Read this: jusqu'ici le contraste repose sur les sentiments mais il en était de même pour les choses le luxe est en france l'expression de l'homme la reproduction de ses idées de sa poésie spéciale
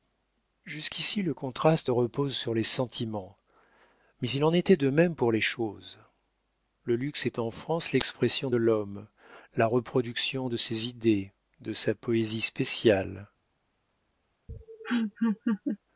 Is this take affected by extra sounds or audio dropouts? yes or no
yes